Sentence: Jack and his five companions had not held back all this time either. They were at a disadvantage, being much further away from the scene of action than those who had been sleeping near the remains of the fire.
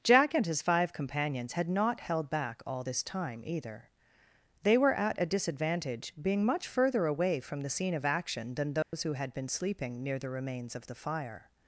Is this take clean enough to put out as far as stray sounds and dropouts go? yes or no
no